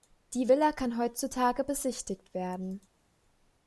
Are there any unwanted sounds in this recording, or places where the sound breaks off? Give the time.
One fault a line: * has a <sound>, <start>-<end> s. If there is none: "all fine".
all fine